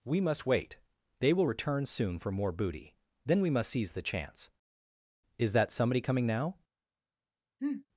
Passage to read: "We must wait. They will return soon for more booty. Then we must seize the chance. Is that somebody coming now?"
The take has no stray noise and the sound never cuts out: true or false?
false